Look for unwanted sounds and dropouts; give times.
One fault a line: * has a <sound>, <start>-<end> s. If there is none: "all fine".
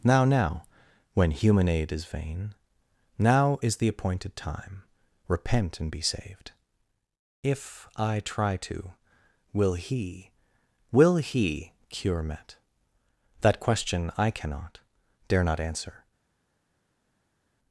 all fine